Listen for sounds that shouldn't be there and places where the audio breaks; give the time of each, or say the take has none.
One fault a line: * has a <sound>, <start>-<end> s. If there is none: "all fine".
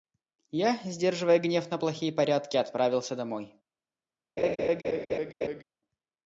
* has a laugh, 4.4-5.6 s